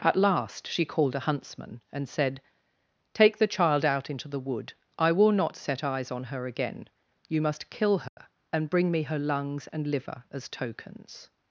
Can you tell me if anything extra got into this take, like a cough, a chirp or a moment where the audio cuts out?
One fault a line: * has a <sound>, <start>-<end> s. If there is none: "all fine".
* has a dropout, 8.1-8.2 s